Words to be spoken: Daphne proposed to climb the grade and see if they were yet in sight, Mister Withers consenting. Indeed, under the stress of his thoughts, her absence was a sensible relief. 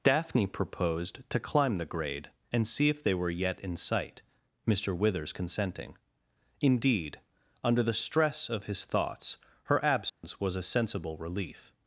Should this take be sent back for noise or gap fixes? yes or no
yes